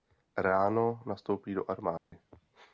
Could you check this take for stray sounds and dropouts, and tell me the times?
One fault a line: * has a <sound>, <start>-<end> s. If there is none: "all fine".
* has a dropout, 2.0-2.1 s